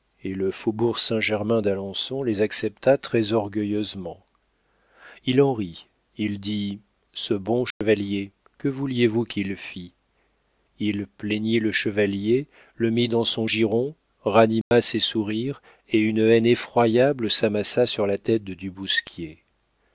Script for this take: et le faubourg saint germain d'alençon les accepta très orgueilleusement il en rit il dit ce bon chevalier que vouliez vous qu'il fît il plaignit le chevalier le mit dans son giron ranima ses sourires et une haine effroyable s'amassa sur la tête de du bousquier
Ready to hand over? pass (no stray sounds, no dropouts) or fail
fail